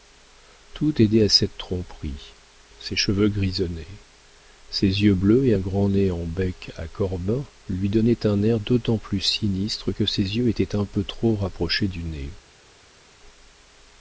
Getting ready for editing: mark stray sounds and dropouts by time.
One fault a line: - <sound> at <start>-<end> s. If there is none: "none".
none